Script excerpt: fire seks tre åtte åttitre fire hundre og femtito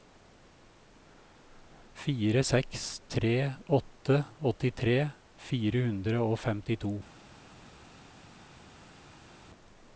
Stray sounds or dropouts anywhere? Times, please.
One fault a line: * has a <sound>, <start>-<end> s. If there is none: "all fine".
all fine